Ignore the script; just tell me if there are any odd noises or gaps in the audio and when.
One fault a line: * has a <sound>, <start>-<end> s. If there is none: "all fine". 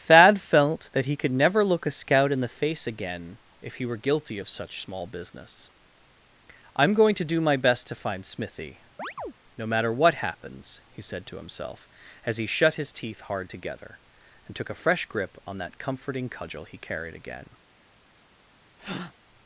* has a chirp, 9.0-9.3 s
* has a breath, 18.8-19.1 s